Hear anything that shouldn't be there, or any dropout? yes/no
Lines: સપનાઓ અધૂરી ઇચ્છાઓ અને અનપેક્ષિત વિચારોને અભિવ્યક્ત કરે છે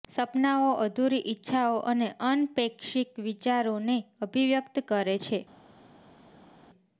no